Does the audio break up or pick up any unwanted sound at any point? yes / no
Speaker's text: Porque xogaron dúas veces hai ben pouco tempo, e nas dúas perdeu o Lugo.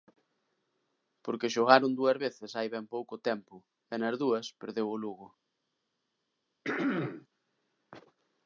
yes